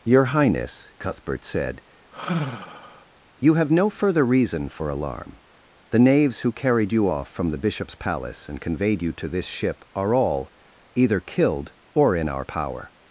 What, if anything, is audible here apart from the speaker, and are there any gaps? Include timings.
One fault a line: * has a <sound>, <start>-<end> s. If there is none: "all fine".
* has a sigh, 2.1-3.1 s